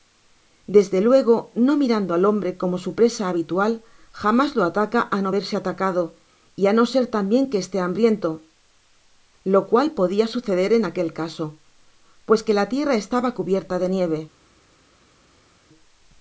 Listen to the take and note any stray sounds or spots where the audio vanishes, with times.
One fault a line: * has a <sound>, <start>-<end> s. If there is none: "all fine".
all fine